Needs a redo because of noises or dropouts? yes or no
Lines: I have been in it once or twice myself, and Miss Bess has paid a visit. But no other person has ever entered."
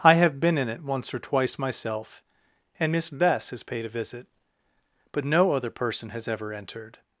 no